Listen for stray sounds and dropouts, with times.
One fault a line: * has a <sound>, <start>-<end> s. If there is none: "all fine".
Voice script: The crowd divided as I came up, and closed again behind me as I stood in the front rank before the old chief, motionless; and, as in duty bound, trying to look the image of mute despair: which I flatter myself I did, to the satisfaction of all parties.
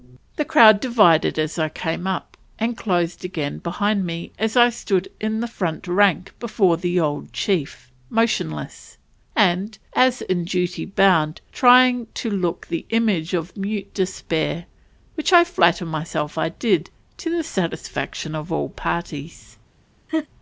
* has a laugh, 20.1-20.3 s